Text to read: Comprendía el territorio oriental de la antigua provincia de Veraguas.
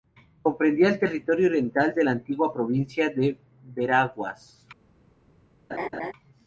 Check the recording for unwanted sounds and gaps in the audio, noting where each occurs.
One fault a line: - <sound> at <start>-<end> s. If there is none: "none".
- laugh at 5.7-6.1 s